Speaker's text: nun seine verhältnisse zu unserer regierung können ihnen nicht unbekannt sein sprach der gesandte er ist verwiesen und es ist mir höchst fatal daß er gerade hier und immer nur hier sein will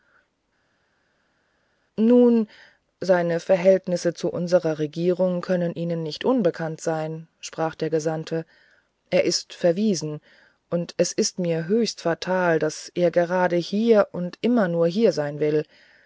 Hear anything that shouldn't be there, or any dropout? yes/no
no